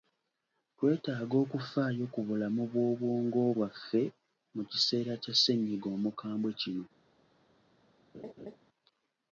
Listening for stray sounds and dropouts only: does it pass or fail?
fail